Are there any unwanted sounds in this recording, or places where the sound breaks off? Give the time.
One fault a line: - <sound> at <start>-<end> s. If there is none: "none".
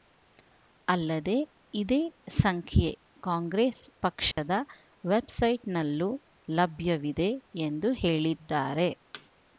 - dropout at 4.3-4.4 s
- thud at 9.1-9.3 s